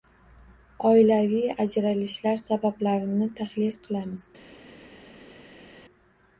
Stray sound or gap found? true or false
false